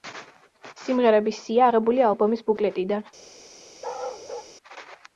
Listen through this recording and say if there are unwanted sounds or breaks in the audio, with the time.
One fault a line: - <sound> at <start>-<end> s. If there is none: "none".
- bark at 3.8-4.5 s